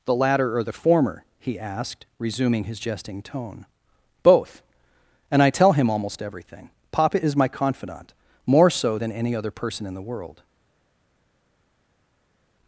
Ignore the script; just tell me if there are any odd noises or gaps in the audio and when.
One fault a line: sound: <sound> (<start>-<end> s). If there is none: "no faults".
no faults